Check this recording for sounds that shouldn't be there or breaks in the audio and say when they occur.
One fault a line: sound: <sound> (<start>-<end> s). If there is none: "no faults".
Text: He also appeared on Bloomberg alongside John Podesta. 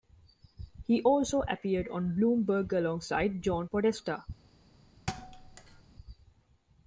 sound: thud (5.1-5.8 s)